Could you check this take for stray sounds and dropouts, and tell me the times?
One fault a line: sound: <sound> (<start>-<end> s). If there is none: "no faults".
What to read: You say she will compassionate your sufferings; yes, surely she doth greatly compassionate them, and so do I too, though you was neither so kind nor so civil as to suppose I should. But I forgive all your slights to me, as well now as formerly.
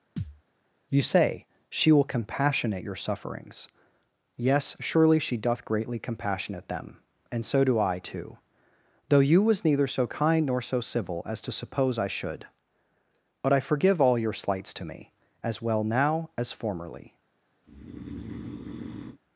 sound: thud (0.2-0.4 s)
sound: breath (17.6-19.2 s)